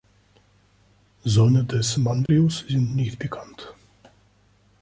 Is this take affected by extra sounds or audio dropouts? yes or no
yes